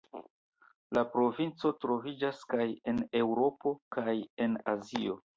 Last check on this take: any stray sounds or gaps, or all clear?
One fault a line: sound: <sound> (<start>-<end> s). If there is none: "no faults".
no faults